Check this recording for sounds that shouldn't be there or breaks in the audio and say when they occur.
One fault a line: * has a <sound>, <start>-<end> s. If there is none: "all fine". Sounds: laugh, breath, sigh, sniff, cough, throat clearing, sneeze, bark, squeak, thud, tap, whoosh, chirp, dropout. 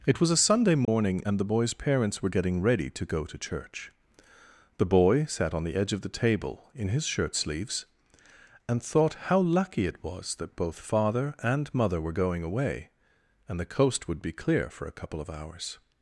* has a dropout, 0.8-0.9 s